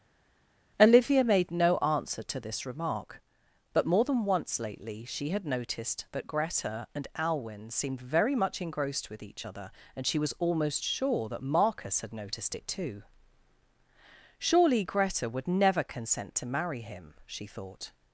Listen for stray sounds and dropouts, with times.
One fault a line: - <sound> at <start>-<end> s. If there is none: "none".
none